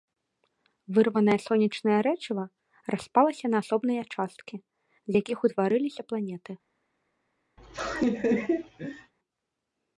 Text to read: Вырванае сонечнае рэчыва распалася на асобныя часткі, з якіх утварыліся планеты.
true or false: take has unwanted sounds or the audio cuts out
true